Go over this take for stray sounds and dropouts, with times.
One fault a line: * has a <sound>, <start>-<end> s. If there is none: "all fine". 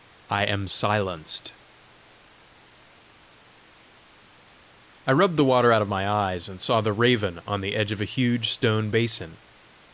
all fine